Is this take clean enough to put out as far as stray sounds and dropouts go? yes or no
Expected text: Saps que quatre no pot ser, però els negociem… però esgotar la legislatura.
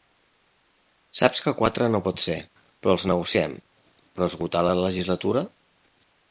yes